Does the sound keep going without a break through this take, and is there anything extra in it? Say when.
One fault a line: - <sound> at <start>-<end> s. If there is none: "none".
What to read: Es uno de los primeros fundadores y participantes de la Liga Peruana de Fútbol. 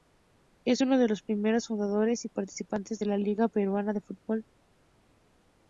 none